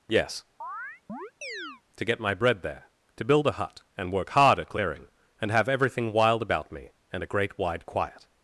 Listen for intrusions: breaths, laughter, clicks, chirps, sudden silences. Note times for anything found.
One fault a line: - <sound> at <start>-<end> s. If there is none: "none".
- chirp at 0.6-1.8 s